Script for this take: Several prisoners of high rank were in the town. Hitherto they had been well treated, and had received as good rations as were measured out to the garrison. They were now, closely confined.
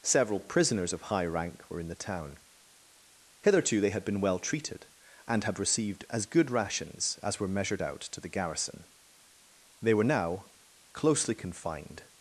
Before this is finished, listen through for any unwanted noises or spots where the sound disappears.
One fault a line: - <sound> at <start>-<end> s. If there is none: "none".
none